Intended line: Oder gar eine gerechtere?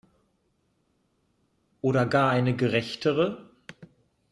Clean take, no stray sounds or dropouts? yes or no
yes